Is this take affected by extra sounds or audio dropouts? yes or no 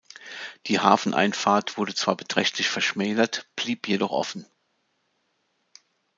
no